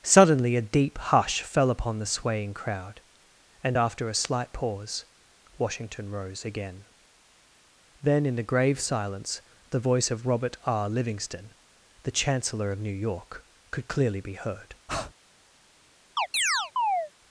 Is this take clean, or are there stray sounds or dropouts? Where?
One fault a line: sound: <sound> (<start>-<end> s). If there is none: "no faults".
sound: breath (14.9-15.1 s)
sound: chirp (16.2-17.1 s)